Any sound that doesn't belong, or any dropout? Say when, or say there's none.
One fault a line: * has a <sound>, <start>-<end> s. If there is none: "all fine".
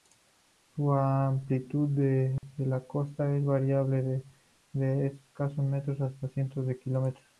* has a dropout, 2.4-2.4 s